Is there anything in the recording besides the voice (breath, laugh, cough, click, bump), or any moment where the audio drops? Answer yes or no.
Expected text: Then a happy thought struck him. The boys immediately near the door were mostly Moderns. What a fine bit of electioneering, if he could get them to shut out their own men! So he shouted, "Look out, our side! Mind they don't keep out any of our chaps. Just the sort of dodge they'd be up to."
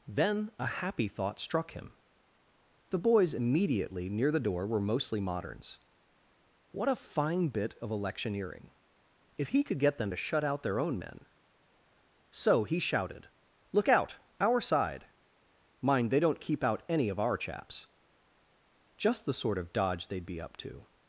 no